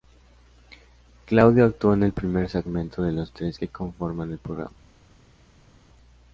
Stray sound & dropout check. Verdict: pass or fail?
pass